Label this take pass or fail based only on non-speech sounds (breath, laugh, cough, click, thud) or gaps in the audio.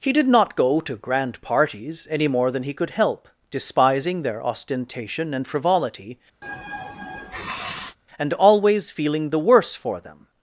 fail